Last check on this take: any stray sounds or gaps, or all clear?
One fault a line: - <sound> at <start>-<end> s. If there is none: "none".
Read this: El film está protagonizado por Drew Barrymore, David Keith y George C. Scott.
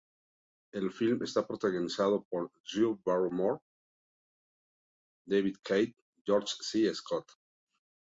none